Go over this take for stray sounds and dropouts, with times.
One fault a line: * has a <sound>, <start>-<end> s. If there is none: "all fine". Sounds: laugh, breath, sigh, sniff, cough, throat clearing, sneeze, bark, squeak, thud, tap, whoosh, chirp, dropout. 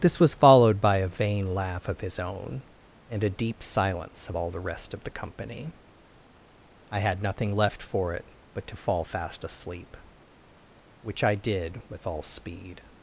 all fine